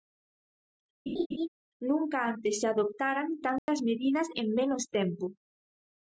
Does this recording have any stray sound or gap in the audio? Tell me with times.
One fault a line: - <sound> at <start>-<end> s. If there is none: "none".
- laugh at 1.1-1.5 s
- dropout at 3.6-3.7 s